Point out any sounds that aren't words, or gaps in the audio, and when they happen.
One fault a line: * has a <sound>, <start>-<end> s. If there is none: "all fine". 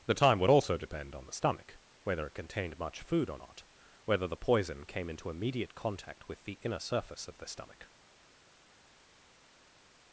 all fine